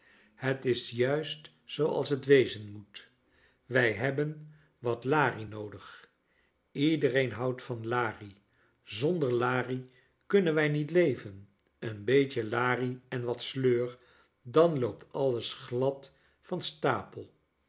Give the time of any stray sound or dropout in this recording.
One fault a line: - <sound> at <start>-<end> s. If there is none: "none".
none